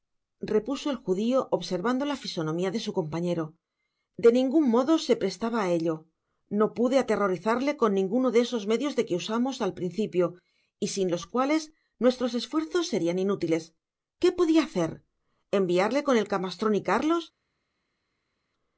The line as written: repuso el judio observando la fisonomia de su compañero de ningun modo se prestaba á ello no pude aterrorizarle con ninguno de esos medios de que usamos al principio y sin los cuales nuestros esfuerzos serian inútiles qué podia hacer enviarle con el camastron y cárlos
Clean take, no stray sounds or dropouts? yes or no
yes